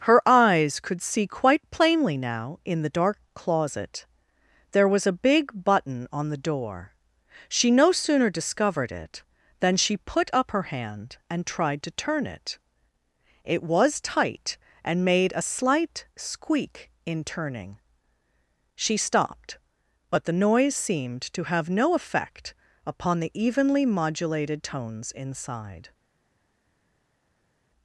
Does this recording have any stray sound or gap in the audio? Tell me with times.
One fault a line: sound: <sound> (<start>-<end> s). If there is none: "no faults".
no faults